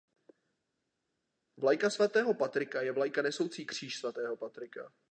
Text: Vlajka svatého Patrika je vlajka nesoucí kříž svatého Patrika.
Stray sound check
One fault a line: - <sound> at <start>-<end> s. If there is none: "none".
none